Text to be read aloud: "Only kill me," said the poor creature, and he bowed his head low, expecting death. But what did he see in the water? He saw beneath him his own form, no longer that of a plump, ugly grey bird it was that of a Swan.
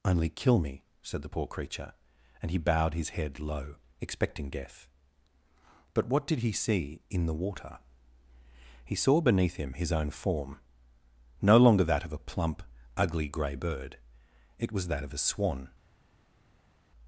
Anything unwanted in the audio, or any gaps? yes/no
no